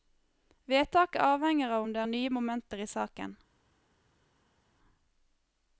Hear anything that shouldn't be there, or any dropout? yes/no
no